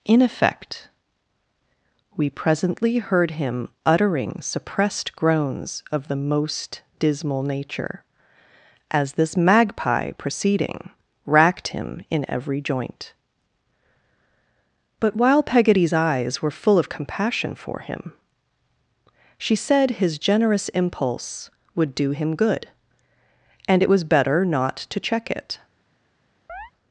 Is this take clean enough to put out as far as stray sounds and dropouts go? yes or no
no